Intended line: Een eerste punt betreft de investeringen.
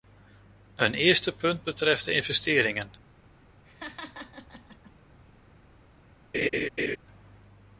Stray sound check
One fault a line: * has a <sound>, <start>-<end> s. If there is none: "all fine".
* has a laugh, 3.6-4.9 s
* has a laugh, 6.3-7.0 s